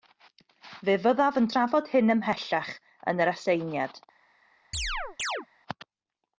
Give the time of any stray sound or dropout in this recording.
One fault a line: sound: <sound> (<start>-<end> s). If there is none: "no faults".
sound: chirp (4.7-5.5 s)